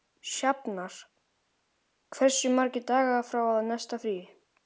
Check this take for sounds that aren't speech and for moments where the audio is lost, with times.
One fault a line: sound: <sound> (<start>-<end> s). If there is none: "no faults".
no faults